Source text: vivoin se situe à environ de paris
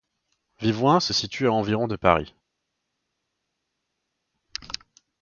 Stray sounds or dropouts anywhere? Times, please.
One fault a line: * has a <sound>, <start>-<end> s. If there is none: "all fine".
all fine